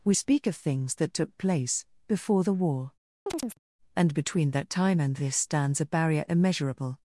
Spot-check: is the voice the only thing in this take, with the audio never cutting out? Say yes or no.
no